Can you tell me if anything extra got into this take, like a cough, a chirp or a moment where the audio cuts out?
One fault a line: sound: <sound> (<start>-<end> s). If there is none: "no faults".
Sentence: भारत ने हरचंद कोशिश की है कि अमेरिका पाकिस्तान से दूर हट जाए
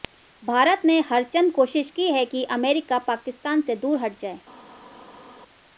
no faults